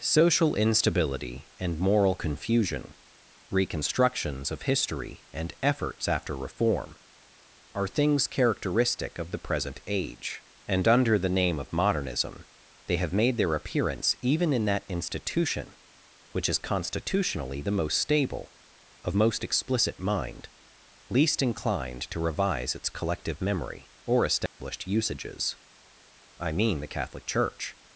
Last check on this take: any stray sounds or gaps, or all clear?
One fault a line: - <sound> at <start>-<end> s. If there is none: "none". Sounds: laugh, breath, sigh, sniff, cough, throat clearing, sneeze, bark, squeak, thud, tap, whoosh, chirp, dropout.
- dropout at 24.5-24.6 s